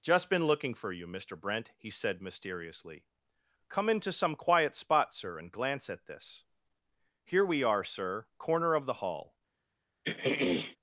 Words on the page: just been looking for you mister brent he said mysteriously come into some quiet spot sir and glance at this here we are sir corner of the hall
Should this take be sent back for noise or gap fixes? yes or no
yes